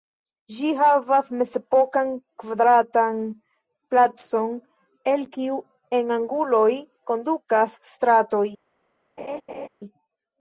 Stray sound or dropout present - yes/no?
yes